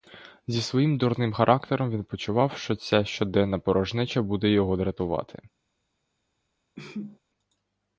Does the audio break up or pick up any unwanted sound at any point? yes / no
yes